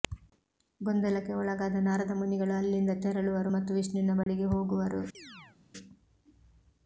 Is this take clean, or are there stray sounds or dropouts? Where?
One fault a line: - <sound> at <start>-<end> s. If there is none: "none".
- dropout at 4.2-4.3 s
- chirp at 5.1-5.6 s